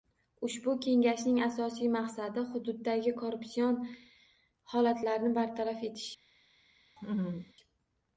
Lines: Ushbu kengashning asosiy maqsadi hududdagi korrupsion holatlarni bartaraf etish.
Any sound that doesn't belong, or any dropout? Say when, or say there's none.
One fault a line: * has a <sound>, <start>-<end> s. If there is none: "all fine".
* has a laugh, 7.0-7.5 s